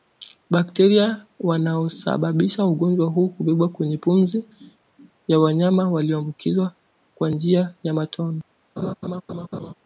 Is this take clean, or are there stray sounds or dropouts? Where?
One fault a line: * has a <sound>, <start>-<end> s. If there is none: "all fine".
* has a laugh, 8.8-9.7 s